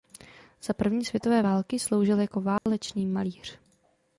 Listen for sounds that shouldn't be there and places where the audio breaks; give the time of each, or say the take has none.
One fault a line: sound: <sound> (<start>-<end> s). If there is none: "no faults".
sound: dropout (2.6-2.7 s)